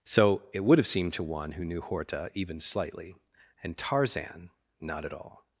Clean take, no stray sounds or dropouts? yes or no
yes